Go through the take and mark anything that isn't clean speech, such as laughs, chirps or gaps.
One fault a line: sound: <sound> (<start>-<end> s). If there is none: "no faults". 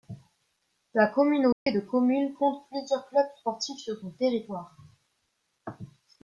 sound: dropout (1.5-1.7 s)